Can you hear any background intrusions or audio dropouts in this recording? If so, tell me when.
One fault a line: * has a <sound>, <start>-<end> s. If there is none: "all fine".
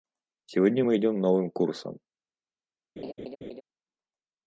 * has a laugh, 3.0-3.6 s